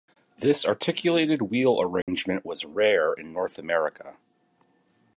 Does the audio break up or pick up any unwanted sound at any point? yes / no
yes